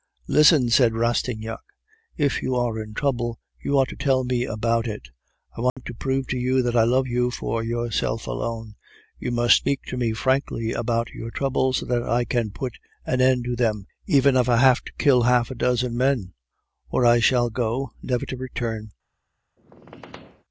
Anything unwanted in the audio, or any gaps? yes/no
yes